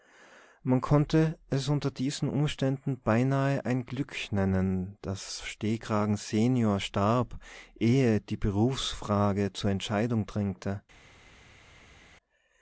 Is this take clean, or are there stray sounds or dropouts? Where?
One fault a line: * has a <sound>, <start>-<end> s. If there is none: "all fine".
all fine